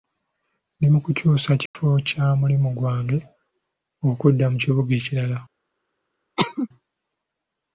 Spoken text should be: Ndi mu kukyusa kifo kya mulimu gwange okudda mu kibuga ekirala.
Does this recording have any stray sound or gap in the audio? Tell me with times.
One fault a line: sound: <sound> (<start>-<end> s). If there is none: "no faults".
sound: dropout (1.7-1.8 s)
sound: cough (6.4-6.7 s)